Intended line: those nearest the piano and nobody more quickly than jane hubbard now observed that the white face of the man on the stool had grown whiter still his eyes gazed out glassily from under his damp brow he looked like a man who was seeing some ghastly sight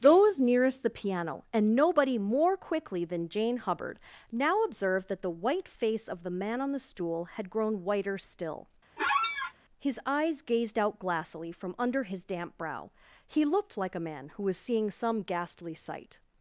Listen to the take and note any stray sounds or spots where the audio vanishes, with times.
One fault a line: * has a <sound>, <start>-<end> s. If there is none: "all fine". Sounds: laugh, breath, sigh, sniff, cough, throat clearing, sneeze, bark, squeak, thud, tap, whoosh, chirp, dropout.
* has a squeak, 9.0-9.5 s